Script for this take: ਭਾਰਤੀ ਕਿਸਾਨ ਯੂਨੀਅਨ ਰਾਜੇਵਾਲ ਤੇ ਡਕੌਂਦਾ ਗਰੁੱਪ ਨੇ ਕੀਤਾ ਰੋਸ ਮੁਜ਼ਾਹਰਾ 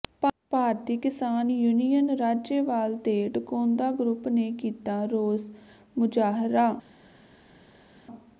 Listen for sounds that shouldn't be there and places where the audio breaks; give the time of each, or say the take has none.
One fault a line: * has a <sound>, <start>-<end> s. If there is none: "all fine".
all fine